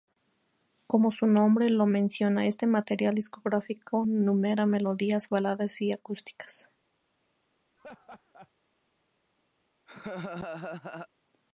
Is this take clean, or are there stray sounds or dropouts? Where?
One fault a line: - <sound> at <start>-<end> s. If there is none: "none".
- laugh at 7.8-8.5 s
- laugh at 9.9-11.1 s